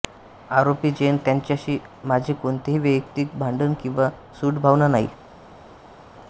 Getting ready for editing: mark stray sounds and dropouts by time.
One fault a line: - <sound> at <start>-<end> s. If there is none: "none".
none